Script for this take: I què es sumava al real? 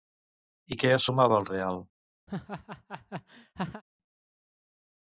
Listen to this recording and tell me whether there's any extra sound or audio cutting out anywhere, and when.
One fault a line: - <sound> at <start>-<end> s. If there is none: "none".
- laugh at 2.3-3.8 s